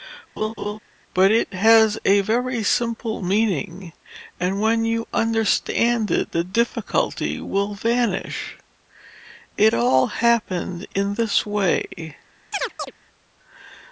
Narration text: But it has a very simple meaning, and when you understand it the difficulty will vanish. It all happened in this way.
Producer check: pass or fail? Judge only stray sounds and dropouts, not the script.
fail